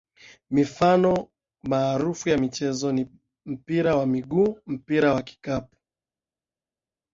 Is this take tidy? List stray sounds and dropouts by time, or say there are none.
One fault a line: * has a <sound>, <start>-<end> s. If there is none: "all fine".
all fine